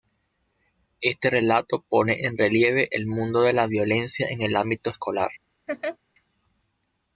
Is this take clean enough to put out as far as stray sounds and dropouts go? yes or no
no